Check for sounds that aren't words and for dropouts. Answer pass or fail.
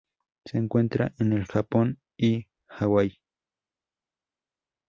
pass